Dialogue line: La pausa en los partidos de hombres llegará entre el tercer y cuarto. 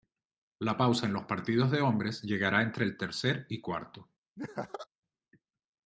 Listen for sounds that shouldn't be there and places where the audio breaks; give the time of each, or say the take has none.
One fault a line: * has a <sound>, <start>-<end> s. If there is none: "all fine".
* has a laugh, 4.4-4.9 s